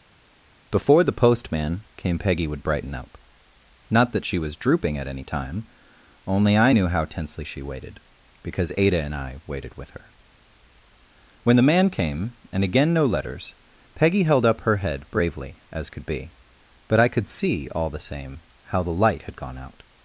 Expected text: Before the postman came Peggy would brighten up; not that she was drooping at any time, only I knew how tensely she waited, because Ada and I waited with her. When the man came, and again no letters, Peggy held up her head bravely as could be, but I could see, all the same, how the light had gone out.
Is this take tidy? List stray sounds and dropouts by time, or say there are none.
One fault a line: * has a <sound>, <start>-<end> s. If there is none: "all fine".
all fine